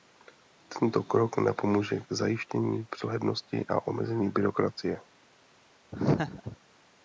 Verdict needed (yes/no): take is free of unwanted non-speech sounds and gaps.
no